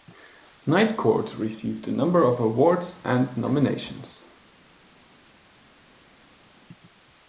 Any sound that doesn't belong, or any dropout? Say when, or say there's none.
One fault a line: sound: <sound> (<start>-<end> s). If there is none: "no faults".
no faults